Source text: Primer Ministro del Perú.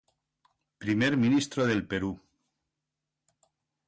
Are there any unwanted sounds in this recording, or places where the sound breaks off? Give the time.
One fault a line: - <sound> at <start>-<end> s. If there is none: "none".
none